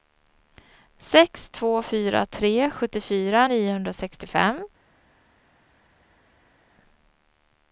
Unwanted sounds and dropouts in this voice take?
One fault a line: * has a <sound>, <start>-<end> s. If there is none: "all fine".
all fine